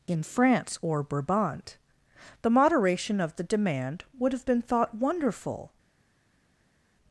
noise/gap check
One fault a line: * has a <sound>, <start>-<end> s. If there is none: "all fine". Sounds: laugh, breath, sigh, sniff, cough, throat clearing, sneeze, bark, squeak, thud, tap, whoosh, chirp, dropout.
all fine